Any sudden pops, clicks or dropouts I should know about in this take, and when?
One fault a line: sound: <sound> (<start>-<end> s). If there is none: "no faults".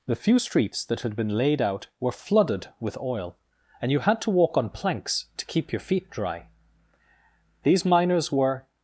no faults